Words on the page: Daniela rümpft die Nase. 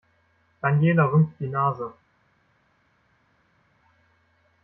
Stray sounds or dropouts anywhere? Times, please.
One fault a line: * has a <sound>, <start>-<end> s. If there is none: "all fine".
all fine